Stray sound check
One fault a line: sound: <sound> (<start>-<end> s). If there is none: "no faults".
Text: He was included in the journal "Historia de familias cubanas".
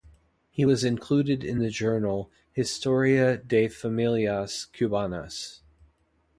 no faults